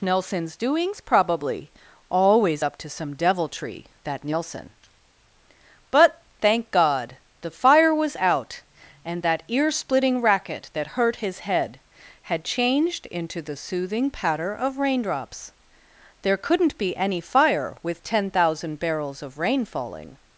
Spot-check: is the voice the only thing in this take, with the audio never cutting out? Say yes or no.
yes